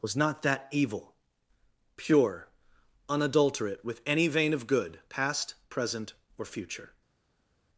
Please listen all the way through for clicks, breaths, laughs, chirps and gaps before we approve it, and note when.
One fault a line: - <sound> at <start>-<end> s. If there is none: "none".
none